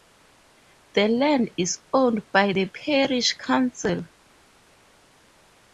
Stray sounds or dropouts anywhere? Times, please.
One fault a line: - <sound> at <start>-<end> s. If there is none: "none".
none